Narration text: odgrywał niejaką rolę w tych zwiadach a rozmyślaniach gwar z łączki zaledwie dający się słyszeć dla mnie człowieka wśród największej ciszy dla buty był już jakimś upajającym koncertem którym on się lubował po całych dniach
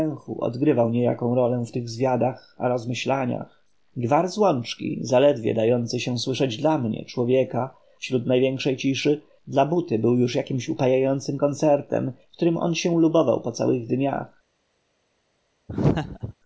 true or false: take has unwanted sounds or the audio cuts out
true